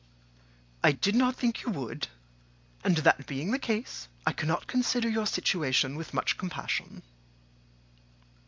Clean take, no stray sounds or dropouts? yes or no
yes